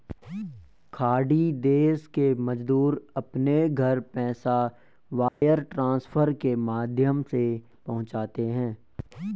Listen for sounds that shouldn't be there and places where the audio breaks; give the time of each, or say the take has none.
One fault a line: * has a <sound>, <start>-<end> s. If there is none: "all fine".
* has a dropout, 5.3-5.4 s